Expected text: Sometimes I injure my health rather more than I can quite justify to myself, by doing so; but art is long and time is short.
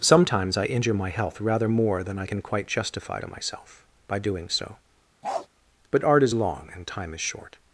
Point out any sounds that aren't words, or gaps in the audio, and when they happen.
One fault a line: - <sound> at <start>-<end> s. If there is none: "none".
- bark at 5.2-5.5 s